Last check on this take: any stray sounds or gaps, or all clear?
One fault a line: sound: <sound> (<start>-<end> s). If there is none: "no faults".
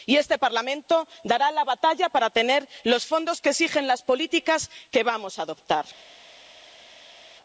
no faults